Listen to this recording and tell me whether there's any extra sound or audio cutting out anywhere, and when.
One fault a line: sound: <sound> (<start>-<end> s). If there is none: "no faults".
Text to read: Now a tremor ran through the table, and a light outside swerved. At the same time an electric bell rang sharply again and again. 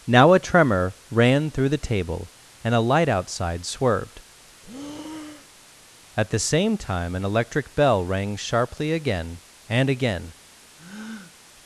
sound: breath (4.6-5.7 s)
sound: breath (10.8-11.4 s)